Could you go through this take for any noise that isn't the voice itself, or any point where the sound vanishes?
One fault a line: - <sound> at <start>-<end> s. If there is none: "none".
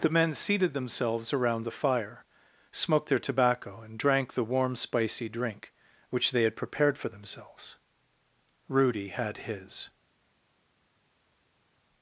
none